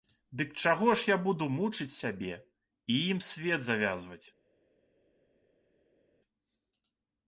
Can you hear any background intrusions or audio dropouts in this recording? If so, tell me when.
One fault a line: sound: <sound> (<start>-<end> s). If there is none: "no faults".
no faults